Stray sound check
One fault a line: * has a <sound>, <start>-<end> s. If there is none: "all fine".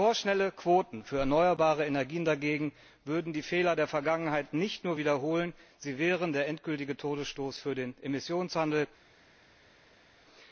all fine